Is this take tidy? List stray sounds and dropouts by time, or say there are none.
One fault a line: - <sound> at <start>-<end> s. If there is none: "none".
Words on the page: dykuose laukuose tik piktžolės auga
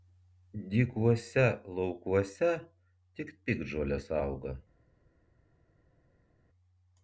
none